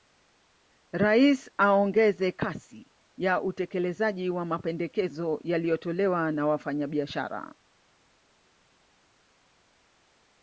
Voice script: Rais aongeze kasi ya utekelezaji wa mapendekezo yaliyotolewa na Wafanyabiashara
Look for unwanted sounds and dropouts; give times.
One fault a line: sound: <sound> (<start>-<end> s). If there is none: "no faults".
no faults